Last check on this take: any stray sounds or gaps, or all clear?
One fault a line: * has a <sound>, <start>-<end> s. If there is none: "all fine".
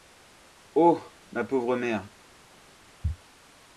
all fine